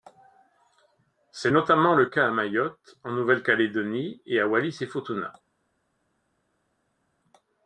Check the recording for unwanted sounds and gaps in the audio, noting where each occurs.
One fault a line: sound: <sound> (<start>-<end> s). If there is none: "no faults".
no faults